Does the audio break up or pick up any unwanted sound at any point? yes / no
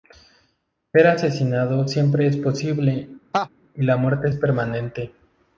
yes